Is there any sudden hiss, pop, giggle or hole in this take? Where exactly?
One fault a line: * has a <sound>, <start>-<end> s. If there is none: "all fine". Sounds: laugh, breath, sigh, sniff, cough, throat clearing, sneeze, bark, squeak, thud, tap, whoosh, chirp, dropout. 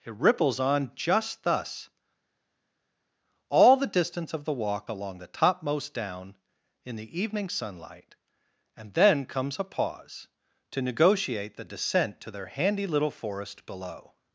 all fine